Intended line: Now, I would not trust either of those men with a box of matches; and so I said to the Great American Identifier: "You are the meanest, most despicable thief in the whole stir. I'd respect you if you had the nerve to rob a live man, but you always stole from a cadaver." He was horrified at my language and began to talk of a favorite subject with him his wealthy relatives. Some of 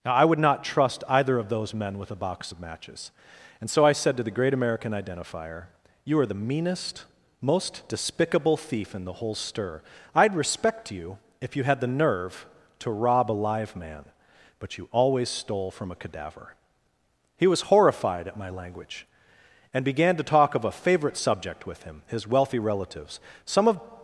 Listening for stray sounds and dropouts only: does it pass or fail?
pass